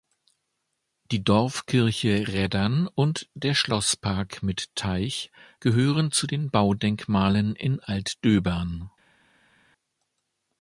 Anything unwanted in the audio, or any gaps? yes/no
no